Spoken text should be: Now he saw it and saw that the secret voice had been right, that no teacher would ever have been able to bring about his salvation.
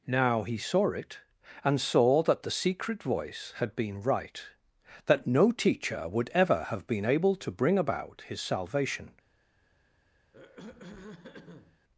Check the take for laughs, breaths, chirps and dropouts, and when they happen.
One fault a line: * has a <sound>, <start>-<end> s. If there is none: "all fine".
* has a throat clearing, 10.3-11.8 s